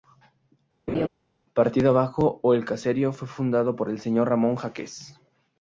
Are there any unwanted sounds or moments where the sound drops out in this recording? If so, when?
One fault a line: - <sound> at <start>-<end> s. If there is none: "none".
- laugh at 0.9-1.1 s